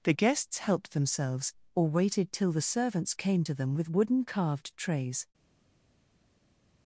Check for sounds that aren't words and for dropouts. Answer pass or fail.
pass